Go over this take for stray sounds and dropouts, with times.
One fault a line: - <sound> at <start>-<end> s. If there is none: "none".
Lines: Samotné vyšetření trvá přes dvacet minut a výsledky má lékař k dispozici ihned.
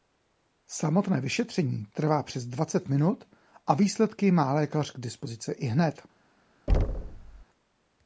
- thud at 6.7-7.4 s